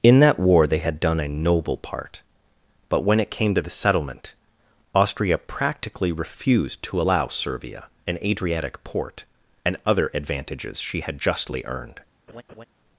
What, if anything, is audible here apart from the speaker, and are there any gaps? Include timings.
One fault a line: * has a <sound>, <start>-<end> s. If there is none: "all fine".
* has a laugh, 12.3-12.7 s